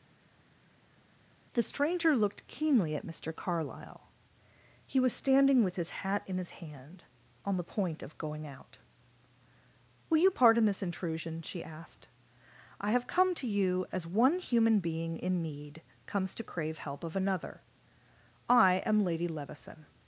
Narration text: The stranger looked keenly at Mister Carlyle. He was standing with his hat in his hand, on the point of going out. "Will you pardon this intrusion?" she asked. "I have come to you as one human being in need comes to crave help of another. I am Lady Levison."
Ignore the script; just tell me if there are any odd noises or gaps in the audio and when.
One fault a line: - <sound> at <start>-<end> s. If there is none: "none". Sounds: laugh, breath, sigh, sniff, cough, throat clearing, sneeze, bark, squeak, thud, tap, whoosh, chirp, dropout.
none